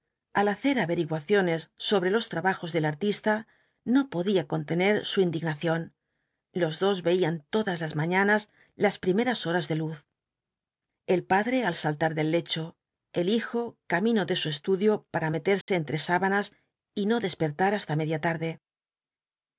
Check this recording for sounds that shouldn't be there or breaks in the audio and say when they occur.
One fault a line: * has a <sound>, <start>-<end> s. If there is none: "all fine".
* has a dropout, 15.6-15.7 s